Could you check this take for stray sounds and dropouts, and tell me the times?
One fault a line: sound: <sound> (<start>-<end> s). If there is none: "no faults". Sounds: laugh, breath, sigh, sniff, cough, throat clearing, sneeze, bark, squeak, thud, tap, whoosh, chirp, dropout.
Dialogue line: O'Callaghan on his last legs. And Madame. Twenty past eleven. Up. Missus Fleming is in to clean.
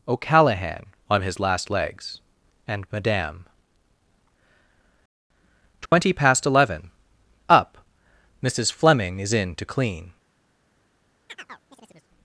sound: dropout (5.9-5.9 s)
sound: chirp (11.3-12.1 s)